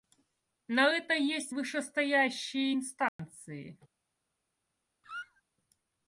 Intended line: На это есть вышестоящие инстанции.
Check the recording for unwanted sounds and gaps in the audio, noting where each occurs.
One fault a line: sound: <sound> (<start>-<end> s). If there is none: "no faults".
sound: dropout (3.1-3.2 s)
sound: squeak (5.0-5.4 s)